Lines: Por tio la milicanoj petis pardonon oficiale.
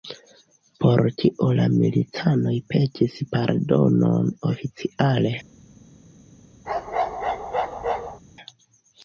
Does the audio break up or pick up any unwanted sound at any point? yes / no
yes